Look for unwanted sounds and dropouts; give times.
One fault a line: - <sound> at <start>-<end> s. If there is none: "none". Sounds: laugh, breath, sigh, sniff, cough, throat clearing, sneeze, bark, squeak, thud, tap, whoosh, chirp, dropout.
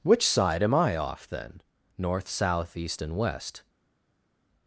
none